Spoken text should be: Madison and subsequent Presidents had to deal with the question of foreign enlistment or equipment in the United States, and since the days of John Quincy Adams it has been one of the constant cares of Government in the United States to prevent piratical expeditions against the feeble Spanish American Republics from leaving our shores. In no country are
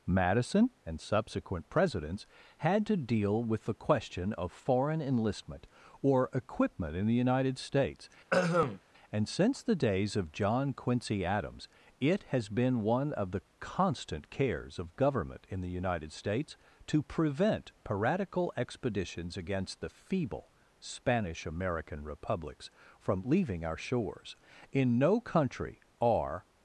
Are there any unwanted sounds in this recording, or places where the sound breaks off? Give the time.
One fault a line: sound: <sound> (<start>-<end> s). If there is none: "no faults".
sound: throat clearing (8.3-8.8 s)